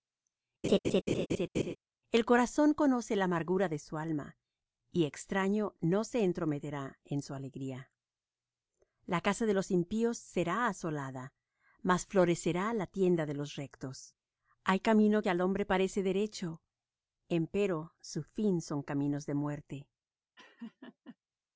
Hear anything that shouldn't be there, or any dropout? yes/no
yes